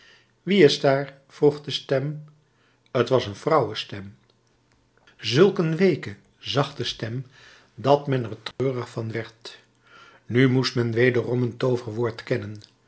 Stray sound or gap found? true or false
true